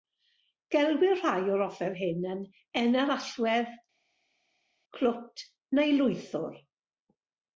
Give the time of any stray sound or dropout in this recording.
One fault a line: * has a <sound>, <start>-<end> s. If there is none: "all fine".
all fine